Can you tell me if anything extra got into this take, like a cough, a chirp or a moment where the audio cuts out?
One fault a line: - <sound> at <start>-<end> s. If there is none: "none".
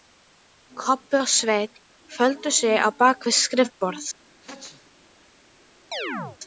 - sneeze at 4.4-4.9 s
- chirp at 5.9-6.4 s